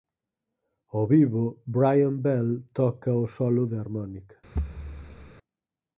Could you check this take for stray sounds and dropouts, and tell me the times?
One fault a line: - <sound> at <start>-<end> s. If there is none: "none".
- thud at 4.5-5.3 s